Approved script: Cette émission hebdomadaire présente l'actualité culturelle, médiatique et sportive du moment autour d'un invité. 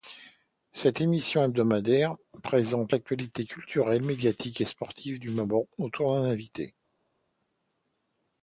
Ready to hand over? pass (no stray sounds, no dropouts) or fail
pass